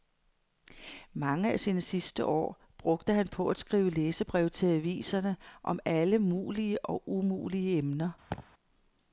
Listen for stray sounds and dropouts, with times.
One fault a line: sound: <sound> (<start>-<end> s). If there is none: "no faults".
sound: laugh (8.3-8.5 s)